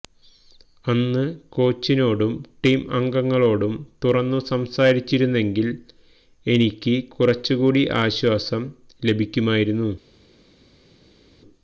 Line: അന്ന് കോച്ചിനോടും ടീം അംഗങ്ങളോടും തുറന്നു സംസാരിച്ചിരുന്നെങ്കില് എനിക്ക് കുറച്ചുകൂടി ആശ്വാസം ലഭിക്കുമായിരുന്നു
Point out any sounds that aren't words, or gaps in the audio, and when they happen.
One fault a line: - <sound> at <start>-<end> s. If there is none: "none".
none